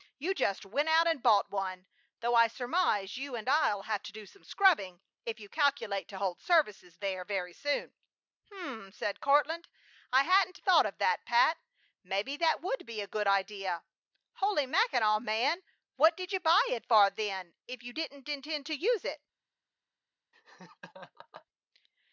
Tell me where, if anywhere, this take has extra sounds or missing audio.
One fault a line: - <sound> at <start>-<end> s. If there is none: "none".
- laugh at 20.3-21.5 s